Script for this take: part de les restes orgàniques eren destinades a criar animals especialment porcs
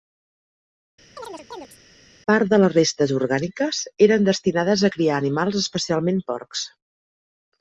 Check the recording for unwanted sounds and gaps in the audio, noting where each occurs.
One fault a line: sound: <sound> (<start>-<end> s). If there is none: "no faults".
sound: chirp (1.2-1.8 s)